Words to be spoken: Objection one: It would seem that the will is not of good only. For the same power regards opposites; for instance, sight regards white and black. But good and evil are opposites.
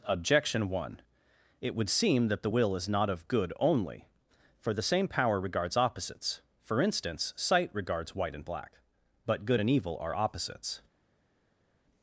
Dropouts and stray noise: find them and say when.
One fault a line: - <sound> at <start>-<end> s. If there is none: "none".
none